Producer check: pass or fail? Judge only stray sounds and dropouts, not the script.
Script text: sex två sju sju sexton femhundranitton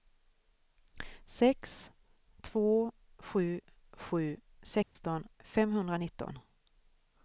fail